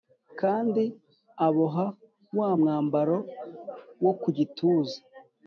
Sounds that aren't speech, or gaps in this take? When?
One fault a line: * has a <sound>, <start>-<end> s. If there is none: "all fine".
all fine